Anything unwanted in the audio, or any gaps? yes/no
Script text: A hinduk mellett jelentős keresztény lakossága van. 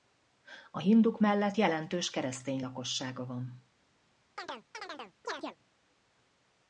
yes